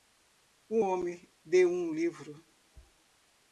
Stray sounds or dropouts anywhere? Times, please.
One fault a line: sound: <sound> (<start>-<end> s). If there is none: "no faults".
no faults